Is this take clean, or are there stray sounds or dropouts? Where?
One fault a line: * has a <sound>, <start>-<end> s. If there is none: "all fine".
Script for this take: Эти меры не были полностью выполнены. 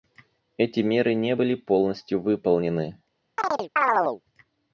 * has a chirp, 3.4-4.2 s